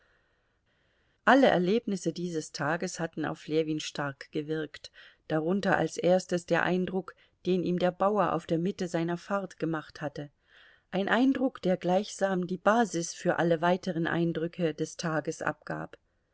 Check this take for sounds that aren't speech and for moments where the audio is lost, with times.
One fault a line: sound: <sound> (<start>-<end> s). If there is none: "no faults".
no faults